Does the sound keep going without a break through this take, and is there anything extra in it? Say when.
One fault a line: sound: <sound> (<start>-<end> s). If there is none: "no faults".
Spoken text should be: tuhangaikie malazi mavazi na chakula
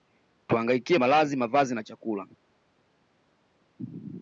no faults